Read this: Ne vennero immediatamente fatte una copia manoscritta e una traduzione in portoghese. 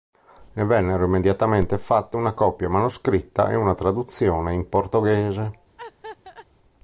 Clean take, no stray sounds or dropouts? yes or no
no